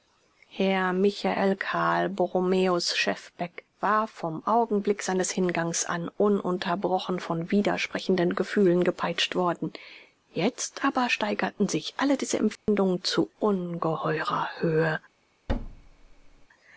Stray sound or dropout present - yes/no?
yes